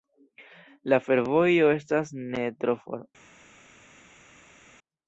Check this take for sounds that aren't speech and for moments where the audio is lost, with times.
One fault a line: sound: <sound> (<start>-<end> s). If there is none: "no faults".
no faults